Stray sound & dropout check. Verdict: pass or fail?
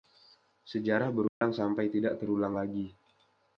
fail